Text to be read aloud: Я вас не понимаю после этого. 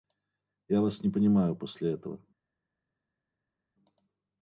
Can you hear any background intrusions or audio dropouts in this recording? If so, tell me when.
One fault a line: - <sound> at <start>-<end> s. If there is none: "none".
none